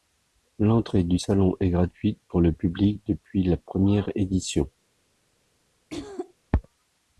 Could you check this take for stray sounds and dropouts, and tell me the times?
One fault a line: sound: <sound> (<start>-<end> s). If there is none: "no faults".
sound: throat clearing (5.9-6.3 s)